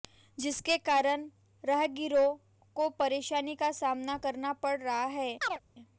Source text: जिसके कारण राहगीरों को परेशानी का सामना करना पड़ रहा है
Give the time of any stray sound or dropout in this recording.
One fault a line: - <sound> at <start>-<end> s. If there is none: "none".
- chirp at 5.4-5.6 s